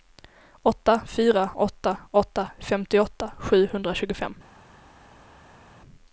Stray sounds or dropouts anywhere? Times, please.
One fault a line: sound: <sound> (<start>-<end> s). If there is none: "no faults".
no faults